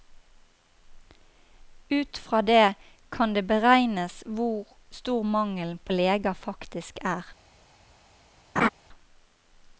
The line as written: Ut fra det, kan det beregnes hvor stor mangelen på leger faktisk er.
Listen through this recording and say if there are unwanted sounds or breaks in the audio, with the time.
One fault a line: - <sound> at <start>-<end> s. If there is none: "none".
- laugh at 8.6-8.7 s